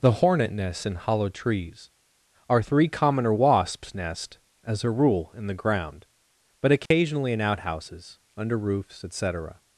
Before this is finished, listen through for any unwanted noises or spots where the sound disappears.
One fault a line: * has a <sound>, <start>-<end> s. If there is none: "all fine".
* has a dropout, 6.9-6.9 s